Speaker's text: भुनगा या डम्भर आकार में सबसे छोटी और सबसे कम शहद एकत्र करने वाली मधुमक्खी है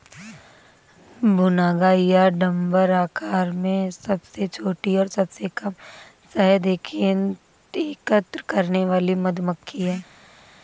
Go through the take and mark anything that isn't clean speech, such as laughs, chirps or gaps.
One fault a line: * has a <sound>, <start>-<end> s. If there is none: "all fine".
all fine